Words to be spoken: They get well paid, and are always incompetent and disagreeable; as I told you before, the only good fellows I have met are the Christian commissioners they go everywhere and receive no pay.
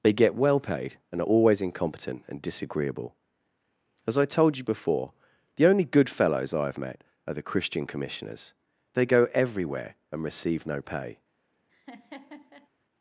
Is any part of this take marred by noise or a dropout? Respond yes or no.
yes